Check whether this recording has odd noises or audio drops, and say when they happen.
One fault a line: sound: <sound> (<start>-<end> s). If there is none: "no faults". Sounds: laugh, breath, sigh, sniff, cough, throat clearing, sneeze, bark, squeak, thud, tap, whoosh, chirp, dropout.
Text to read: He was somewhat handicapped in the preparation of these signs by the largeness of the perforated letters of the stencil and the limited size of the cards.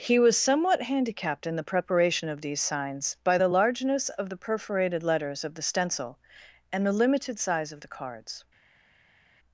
no faults